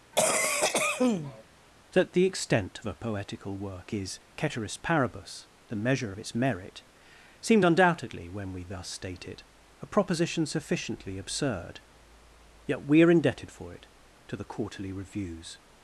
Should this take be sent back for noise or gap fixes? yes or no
yes